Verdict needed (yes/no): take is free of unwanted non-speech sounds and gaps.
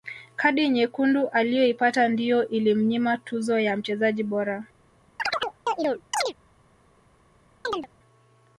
no